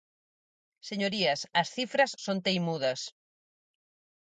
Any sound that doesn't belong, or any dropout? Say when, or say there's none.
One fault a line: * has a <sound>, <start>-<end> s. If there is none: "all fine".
all fine